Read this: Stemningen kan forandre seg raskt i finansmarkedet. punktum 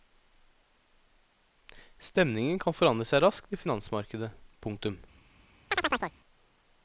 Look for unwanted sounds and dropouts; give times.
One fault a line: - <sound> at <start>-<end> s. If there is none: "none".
- chirp at 5.7-6.2 s